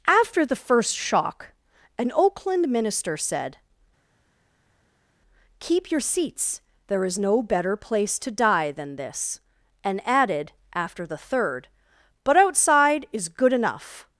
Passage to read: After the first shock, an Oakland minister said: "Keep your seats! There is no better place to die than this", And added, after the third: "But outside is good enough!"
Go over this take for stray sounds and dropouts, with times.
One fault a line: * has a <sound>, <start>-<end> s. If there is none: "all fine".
all fine